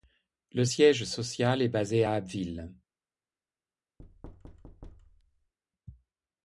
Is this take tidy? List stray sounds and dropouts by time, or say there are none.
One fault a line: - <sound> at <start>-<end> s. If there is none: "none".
- thud at 4.0-5.5 s